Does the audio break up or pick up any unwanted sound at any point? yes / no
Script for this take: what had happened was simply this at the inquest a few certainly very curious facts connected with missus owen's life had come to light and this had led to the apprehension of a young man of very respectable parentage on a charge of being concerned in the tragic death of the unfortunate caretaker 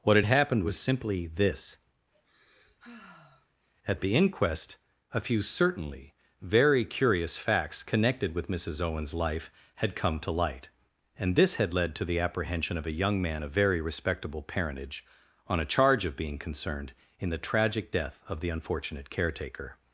yes